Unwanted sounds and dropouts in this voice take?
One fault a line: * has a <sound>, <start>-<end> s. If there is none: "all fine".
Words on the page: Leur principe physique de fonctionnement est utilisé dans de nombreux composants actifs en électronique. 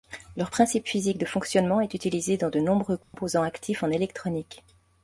* has a dropout, 3.0-3.1 s